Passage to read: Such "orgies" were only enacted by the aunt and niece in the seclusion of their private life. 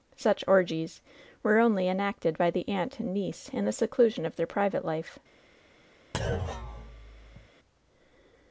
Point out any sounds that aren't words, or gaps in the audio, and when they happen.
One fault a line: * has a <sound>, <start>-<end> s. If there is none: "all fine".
* has a thud, 6.1-7.5 s